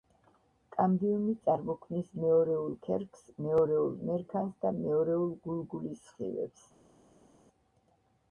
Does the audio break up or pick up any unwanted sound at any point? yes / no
no